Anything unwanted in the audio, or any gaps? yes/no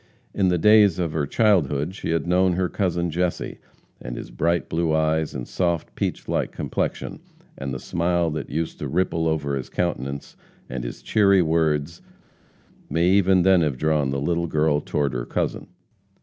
no